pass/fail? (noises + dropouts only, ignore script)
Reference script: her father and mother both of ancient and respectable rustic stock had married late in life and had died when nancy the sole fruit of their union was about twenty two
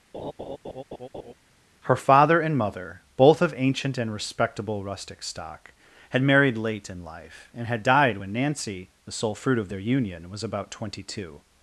fail